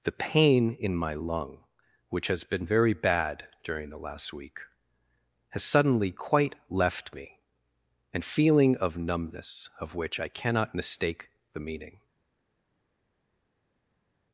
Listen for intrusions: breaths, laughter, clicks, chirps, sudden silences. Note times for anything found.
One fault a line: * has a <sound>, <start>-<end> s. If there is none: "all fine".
all fine